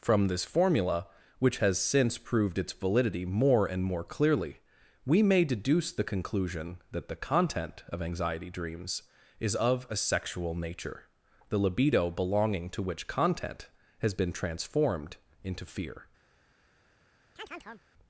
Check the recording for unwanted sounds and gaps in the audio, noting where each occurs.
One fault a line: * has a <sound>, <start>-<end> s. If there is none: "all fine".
* has a chirp, 17.4-17.9 s